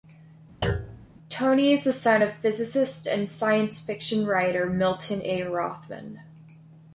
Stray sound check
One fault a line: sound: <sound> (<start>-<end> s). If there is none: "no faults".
sound: thud (0.6-1.1 s)